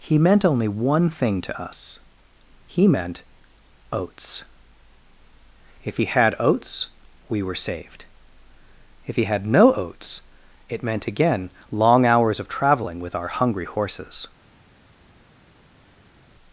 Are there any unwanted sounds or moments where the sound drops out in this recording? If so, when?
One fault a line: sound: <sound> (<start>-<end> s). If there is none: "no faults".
no faults